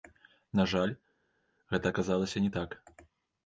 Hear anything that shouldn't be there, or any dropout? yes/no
no